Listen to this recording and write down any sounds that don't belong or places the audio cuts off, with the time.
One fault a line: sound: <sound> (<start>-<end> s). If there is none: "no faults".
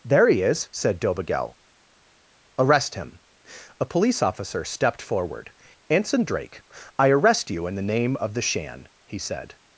no faults